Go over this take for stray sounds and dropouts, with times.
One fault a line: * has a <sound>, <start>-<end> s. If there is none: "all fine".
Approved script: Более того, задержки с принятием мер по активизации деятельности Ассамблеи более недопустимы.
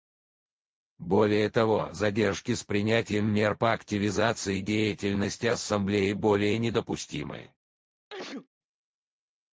* has a sneeze, 8.1-8.5 s